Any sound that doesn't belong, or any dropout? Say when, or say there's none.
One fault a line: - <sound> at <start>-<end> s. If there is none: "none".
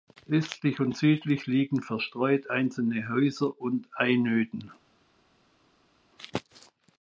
none